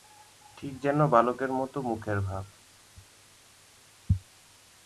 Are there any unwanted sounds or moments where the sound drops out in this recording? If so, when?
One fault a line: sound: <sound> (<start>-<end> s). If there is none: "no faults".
no faults